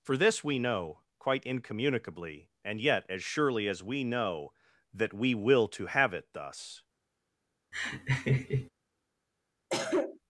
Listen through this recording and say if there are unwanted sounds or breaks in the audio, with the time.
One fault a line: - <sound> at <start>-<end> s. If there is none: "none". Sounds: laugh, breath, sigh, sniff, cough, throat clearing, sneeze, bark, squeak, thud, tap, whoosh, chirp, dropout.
- laugh at 7.7-8.7 s
- cough at 9.7-10.2 s